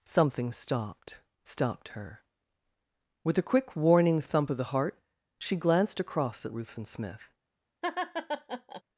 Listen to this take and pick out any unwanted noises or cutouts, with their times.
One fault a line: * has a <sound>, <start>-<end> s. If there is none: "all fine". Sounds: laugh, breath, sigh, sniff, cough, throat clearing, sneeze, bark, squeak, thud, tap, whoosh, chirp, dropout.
* has a laugh, 7.8-8.8 s